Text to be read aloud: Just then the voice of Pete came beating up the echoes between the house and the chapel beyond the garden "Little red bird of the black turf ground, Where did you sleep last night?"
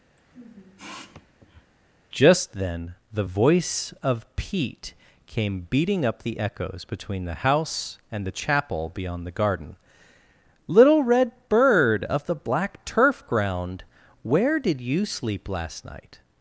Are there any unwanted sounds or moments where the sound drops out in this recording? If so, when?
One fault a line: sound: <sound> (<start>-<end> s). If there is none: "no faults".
sound: sniff (0.2-1.7 s)